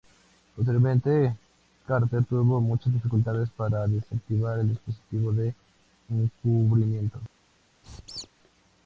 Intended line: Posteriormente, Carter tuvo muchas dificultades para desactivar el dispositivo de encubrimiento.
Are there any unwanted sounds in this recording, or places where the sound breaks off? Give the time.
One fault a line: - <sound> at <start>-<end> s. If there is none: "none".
- squeak at 7.8-8.3 s